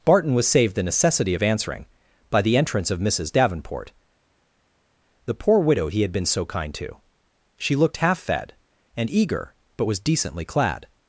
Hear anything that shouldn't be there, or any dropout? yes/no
no